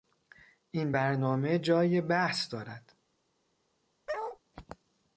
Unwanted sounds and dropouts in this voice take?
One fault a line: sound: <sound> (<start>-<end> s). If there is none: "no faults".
sound: bark (4.1-4.4 s)